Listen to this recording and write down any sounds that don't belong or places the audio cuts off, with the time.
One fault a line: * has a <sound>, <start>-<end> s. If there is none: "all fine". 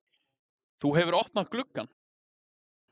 all fine